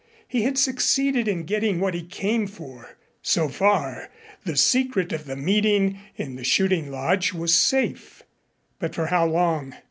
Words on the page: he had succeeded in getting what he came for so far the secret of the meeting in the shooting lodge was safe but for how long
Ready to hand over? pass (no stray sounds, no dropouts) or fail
pass